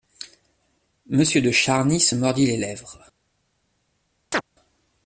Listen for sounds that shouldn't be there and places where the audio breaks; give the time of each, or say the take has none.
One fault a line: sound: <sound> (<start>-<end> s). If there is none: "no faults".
sound: chirp (4.3-4.4 s)